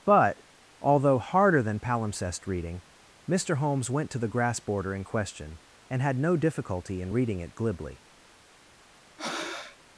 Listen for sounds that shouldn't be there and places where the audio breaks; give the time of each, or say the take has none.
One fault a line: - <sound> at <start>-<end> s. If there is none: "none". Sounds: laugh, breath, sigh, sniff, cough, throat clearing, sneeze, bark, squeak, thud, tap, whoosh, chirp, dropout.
- breath at 9.2-9.8 s